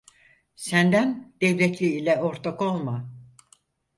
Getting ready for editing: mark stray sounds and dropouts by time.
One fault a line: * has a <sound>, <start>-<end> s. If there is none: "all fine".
all fine